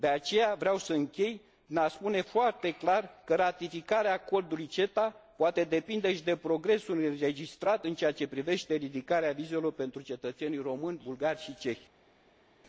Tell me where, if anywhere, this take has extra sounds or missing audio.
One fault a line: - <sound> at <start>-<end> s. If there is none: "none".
none